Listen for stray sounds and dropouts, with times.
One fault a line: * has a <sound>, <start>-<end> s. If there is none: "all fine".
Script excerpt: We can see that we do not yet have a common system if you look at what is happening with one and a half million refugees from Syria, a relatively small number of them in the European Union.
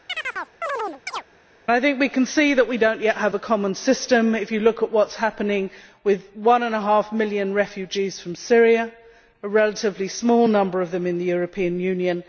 * has a chirp, 0.1-1.2 s